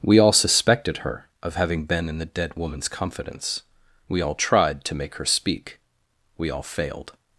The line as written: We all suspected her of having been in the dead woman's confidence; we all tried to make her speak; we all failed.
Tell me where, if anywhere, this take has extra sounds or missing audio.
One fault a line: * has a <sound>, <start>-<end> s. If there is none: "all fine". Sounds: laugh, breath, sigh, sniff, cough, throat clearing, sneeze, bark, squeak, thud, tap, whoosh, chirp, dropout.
all fine